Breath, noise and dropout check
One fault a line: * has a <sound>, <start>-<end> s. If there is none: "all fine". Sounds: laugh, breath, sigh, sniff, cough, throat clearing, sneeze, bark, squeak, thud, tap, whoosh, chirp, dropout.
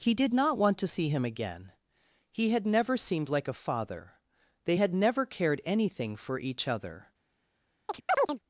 * has a chirp, 7.9-8.4 s